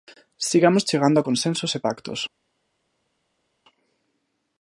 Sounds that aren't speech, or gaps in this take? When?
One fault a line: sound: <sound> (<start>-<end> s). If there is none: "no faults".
no faults